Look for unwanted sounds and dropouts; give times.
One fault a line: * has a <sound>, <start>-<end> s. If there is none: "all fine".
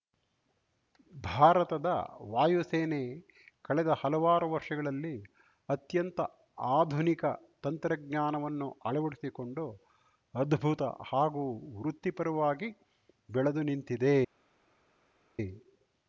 all fine